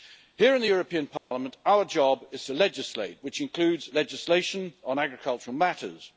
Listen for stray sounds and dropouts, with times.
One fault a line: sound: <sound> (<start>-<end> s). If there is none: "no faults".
sound: dropout (1.2-1.3 s)